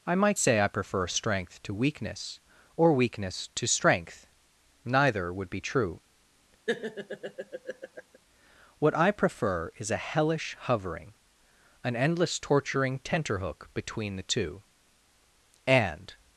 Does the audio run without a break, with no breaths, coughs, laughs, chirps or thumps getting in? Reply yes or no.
no